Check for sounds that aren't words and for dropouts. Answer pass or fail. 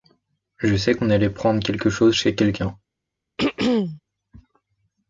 fail